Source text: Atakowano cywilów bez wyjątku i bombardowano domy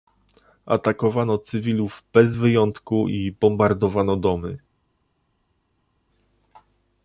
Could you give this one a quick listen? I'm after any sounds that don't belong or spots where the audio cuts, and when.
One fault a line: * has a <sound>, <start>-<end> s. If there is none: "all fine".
all fine